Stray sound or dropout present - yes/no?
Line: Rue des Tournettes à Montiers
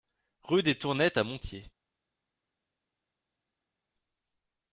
no